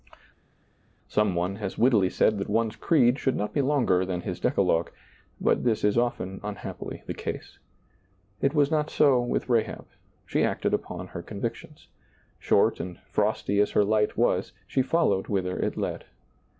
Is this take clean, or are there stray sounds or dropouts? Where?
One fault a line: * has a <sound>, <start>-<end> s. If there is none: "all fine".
all fine